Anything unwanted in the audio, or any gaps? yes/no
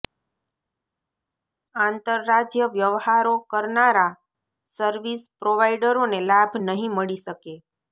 no